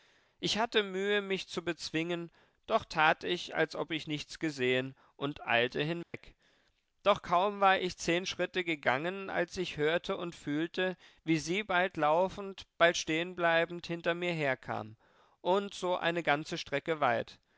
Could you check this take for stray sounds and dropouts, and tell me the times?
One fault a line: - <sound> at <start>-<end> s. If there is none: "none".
- dropout at 6.0-6.1 s